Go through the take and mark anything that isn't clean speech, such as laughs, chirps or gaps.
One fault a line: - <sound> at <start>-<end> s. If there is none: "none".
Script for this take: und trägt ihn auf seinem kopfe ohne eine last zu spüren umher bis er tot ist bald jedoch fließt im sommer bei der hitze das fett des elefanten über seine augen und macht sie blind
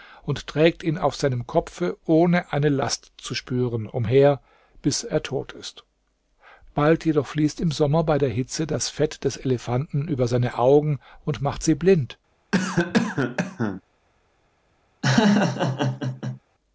- cough at 12.5-13.8 s
- laugh at 15.0-16.4 s